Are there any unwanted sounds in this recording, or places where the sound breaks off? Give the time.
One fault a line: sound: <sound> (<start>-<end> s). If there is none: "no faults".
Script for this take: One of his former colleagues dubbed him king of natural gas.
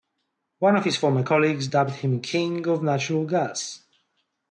no faults